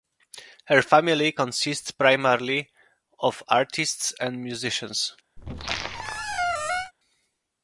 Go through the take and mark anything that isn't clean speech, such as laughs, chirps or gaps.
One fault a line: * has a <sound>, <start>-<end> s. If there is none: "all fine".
* has a squeak, 5.4-6.9 s